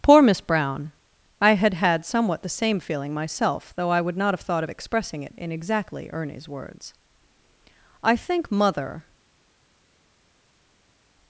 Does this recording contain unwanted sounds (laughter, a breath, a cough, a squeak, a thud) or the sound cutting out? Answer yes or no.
no